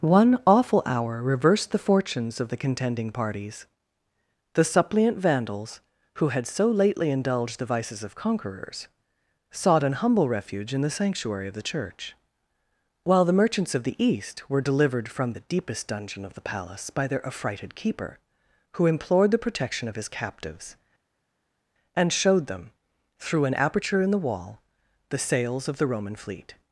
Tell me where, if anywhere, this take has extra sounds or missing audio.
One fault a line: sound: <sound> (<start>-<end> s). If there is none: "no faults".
no faults